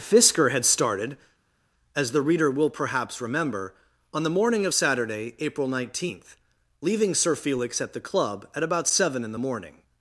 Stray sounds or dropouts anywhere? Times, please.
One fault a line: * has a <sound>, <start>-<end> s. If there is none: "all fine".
all fine